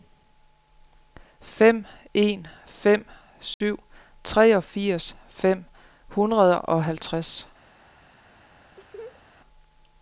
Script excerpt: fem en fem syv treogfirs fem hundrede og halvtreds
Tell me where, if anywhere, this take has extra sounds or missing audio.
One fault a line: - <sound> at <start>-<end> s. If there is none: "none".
- dropout at 3.5-3.6 s
- laugh at 8.8-9.2 s